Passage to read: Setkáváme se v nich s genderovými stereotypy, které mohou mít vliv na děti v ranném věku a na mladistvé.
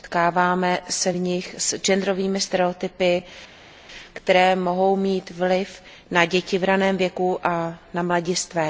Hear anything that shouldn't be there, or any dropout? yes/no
no